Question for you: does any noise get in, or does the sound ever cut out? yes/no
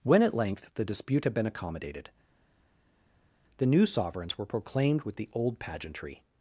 no